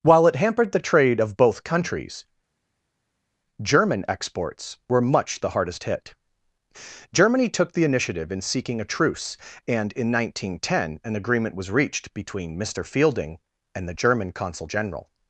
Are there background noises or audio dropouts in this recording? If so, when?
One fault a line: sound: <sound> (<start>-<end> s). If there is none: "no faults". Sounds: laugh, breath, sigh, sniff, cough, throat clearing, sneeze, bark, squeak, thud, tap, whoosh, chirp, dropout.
no faults